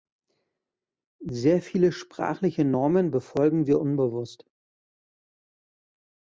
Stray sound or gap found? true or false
false